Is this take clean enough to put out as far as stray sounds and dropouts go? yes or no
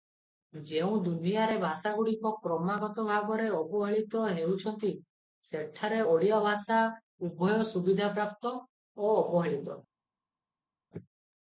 yes